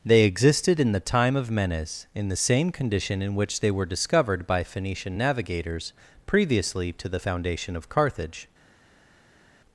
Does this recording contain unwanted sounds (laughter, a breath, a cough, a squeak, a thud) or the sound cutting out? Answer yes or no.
no